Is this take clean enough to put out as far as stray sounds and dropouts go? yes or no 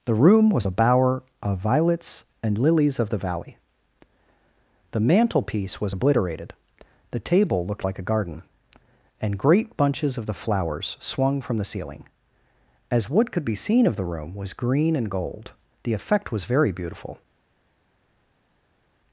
yes